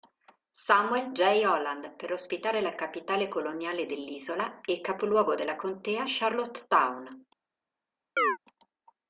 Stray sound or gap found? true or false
true